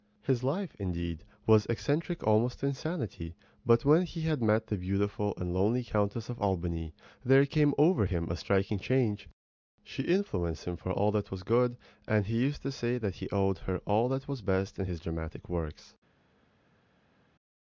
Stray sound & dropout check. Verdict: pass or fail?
pass